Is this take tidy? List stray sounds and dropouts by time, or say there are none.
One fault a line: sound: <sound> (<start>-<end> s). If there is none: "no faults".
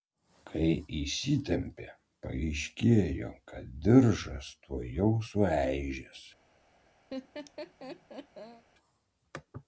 sound: laugh (7.1-8.6 s)